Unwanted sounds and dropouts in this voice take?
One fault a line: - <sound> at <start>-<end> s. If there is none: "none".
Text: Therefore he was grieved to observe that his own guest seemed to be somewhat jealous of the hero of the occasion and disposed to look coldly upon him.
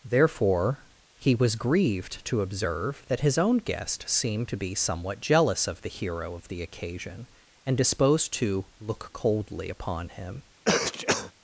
- sneeze at 10.6-11.3 s